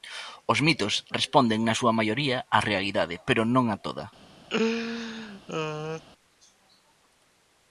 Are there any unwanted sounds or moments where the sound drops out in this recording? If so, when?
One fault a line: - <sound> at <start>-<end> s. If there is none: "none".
- laugh at 4.5-6.0 s